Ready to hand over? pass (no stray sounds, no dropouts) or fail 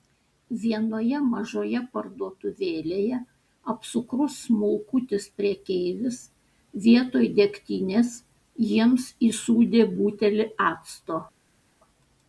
pass